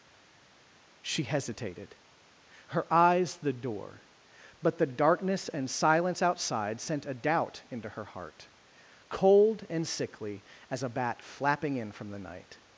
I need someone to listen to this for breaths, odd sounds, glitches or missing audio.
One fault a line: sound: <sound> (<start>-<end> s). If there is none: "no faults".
no faults